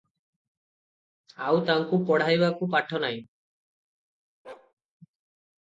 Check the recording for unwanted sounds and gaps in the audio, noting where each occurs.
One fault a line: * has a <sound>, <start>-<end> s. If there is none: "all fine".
* has a bark, 4.4-4.7 s